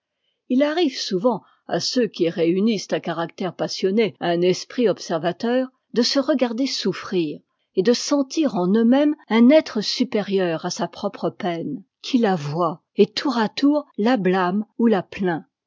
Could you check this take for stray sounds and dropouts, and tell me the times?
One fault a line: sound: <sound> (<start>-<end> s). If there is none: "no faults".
no faults